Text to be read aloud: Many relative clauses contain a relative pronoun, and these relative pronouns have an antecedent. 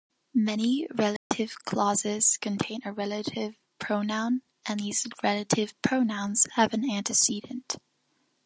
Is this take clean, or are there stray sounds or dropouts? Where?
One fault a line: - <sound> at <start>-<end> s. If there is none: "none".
- dropout at 1.2-1.3 s